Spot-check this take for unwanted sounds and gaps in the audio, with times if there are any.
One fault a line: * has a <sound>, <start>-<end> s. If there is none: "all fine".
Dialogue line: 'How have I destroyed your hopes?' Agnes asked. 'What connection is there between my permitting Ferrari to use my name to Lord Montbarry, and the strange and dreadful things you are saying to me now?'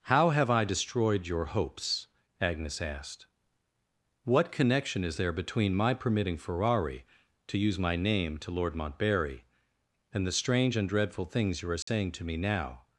* has a dropout, 11.8-11.9 s